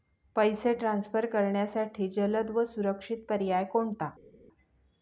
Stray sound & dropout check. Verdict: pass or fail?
pass